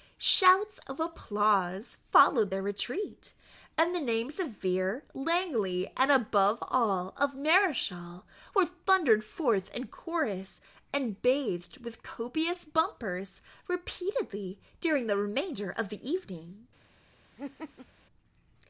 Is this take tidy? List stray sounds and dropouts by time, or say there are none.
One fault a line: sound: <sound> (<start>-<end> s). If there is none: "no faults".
sound: laugh (17.4-17.9 s)